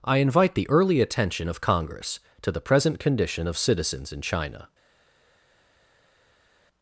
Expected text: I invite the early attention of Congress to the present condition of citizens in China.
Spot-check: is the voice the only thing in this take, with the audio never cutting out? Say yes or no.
yes